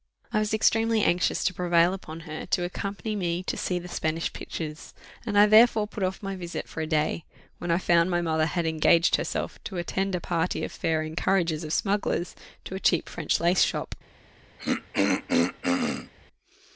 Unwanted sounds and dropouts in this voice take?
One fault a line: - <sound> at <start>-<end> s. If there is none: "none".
- throat clearing at 14.6-16.1 s